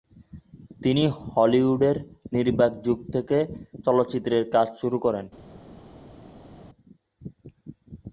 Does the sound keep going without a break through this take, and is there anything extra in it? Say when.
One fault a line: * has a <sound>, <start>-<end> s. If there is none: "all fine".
all fine